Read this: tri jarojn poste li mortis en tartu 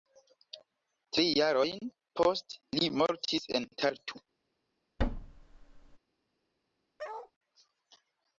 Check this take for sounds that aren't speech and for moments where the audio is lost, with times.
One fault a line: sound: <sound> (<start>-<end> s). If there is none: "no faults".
sound: thud (5.0-6.0 s)
sound: bark (7.0-7.3 s)